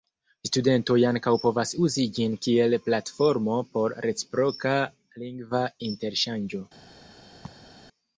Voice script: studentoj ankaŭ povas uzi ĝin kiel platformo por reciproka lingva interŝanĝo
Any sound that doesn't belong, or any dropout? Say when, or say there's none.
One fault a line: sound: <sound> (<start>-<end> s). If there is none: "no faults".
sound: laugh (7.4-7.7 s)